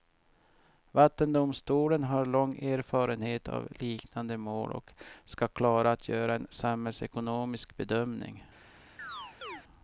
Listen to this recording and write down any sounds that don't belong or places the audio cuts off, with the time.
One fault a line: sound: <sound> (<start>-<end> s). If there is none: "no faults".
sound: chirp (9.0-9.6 s)